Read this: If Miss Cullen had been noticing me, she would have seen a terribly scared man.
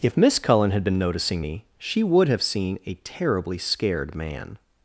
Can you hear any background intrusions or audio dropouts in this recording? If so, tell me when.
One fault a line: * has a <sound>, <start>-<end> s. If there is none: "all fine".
all fine